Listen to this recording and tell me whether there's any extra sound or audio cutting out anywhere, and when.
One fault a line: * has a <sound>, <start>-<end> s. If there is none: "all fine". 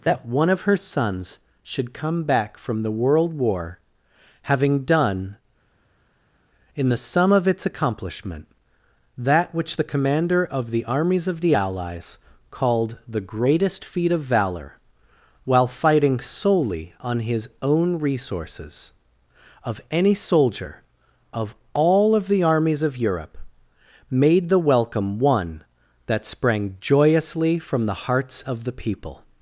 all fine